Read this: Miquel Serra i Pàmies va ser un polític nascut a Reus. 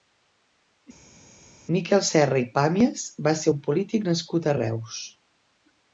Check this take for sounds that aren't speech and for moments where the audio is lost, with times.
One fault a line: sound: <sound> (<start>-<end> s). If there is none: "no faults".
no faults